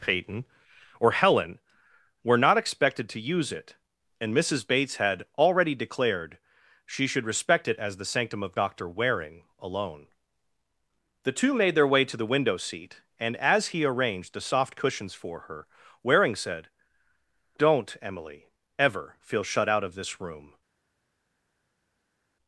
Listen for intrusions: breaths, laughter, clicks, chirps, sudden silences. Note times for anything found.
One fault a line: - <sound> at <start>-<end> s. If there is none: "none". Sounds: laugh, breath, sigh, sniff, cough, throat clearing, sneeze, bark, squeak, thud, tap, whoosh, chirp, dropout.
none